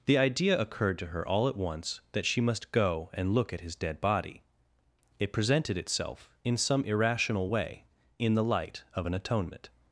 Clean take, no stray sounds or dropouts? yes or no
yes